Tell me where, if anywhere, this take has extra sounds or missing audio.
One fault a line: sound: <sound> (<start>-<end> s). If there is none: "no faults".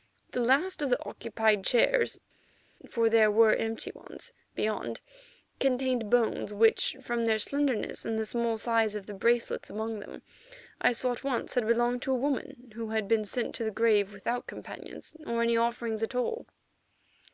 no faults